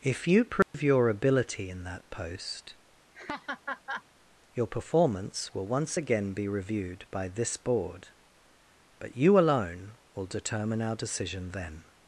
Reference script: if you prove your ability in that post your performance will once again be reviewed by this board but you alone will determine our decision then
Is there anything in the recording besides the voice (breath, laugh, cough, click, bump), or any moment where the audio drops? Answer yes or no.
yes